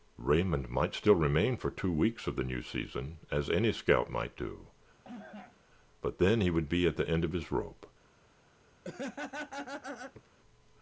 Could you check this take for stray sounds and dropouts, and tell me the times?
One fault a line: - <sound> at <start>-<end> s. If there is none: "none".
- cough at 5.0-5.6 s
- laugh at 8.8-10.3 s